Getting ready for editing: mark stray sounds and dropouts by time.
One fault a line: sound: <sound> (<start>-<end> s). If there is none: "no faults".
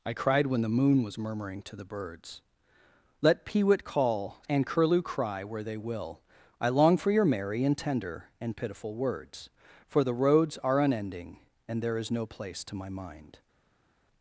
no faults